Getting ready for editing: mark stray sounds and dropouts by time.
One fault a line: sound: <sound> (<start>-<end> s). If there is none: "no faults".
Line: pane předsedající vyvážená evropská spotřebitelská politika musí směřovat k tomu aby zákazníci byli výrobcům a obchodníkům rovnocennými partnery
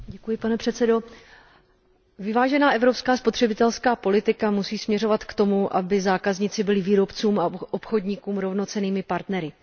no faults